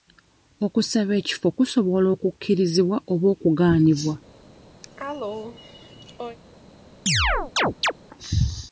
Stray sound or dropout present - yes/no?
yes